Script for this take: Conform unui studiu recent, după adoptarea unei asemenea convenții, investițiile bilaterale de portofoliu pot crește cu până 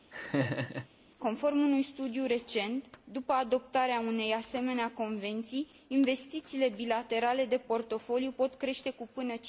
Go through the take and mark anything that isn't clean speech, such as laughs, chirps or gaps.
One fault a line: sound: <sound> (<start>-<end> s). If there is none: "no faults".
sound: laugh (0.1-0.9 s)